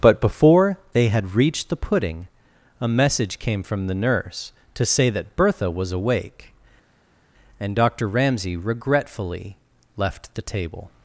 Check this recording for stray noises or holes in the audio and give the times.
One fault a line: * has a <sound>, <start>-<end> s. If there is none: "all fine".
all fine